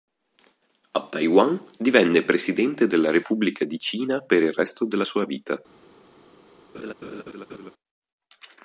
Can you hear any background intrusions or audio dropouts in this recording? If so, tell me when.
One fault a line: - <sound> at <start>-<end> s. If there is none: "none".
- laugh at 6.7-7.7 s